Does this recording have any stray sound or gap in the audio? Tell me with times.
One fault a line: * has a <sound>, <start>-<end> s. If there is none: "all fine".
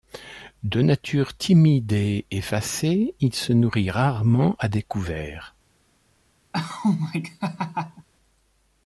* has a laugh, 6.5-8.1 s